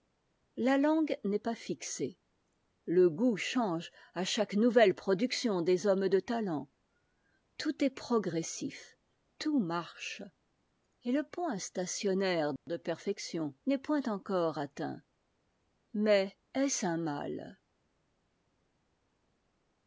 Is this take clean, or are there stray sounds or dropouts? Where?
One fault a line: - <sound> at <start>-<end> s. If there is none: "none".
none